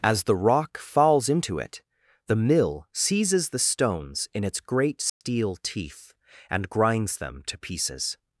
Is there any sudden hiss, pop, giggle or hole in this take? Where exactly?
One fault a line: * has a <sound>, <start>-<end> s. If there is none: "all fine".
* has a dropout, 5.1-5.2 s